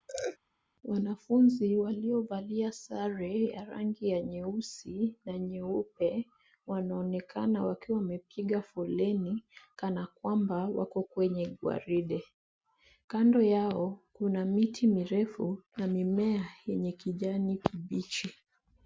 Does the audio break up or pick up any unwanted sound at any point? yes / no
yes